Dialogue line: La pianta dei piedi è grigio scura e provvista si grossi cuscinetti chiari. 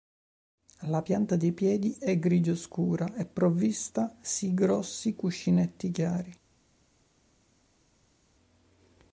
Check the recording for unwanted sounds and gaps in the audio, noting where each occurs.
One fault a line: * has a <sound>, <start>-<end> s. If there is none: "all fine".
all fine